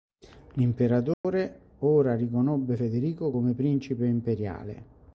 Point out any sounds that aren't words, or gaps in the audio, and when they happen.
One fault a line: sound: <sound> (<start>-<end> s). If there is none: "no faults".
sound: dropout (1.1-1.2 s)